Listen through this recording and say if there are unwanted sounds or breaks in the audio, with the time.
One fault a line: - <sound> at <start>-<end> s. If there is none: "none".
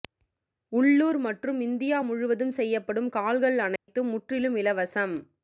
- dropout at 3.8-3.9 s